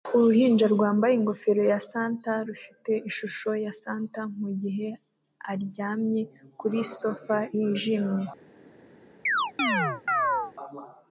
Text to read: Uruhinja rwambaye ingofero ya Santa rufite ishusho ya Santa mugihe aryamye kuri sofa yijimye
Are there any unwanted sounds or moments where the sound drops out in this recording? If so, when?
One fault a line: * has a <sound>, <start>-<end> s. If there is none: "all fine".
* has a chirp, 9.3-10.5 s